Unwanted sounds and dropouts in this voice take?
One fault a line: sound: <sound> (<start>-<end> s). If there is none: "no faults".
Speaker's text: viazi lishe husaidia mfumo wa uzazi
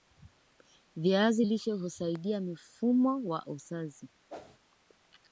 sound: whoosh (4.3-4.6 s)